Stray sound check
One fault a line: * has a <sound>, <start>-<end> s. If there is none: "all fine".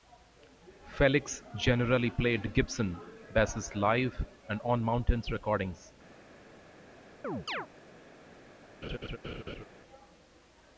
* has a chirp, 7.2-7.7 s
* has a laugh, 8.8-9.6 s